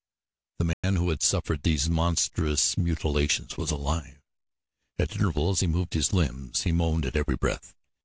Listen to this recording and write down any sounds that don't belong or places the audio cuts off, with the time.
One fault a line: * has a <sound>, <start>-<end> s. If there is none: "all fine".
* has a dropout, 0.7-0.8 s